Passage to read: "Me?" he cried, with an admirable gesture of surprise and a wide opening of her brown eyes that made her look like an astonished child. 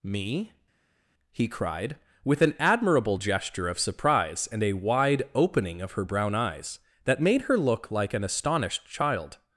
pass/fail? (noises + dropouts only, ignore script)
pass